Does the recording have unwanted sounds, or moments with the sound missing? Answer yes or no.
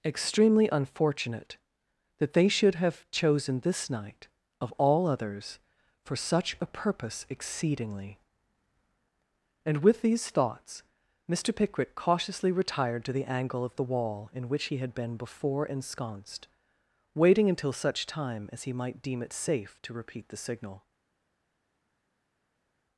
no